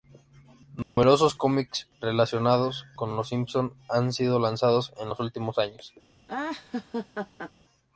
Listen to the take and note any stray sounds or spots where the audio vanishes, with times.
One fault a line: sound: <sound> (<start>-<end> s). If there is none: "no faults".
sound: dropout (0.8-1.0 s)
sound: laugh (6.3-7.5 s)